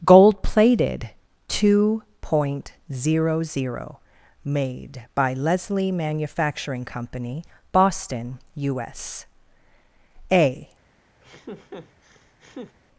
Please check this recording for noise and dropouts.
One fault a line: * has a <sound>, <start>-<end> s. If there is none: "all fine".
* has a laugh, 11.2-12.8 s